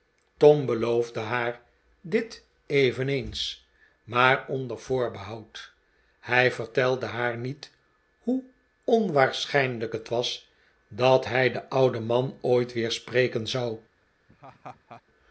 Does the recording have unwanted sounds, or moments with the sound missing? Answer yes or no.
yes